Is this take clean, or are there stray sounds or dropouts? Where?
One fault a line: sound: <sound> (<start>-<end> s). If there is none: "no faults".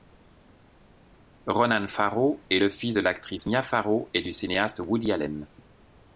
no faults